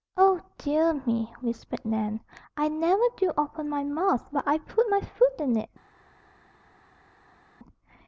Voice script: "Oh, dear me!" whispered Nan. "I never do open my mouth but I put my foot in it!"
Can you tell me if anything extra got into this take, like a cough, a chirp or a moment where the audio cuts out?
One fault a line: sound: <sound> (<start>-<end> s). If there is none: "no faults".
no faults